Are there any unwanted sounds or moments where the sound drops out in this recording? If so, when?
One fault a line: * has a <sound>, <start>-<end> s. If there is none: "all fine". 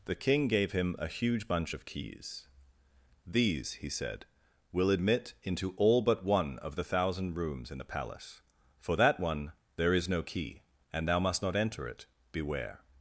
all fine